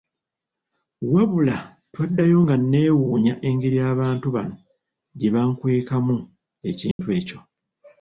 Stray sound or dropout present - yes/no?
yes